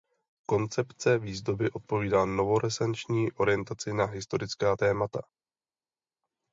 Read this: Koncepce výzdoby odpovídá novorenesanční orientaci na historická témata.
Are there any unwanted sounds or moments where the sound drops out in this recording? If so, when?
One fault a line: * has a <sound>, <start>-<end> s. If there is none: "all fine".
all fine